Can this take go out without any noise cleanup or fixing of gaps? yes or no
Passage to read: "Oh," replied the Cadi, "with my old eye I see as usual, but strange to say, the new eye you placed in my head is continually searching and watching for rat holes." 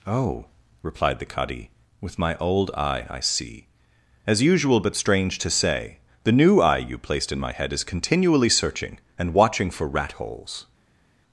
yes